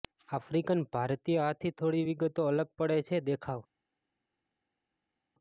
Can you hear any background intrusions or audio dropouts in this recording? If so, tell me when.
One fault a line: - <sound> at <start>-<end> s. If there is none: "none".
none